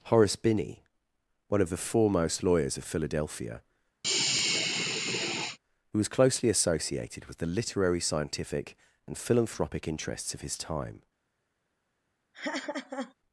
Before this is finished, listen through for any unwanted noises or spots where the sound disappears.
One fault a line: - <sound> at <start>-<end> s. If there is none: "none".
- sigh at 4.0-5.6 s
- laugh at 12.3-13.1 s